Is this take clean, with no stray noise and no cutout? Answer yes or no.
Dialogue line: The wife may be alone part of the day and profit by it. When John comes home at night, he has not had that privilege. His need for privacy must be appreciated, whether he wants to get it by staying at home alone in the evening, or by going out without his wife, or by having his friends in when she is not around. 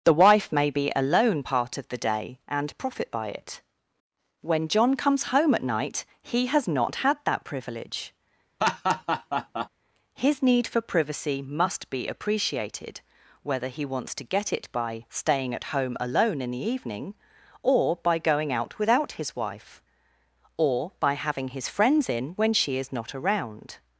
no